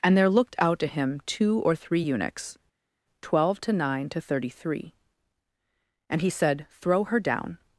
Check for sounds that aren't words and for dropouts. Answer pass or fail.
pass